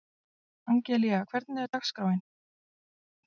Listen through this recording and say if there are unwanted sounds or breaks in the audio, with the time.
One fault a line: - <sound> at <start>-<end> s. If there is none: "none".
none